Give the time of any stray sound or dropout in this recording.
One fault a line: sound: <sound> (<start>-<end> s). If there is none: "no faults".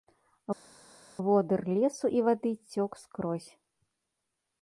no faults